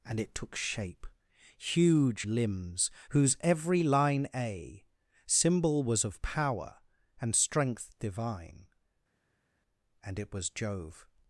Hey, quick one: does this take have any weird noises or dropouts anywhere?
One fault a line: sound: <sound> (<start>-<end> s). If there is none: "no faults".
no faults